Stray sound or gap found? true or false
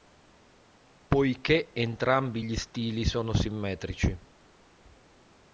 false